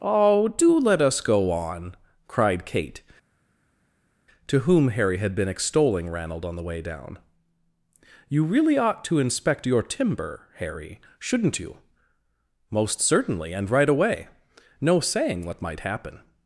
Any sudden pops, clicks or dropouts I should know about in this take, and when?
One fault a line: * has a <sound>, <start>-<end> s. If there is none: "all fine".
all fine